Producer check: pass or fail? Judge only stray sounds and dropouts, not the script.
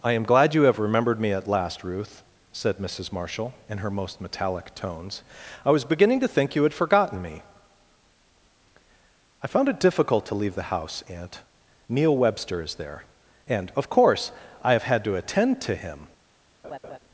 fail